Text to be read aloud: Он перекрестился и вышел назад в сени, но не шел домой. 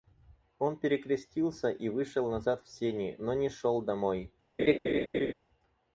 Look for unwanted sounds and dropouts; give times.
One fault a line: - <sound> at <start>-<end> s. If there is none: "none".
- laugh at 4.6-5.3 s